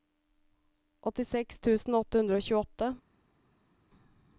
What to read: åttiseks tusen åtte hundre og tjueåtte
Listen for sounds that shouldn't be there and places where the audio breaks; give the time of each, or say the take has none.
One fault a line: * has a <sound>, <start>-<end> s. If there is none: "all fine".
all fine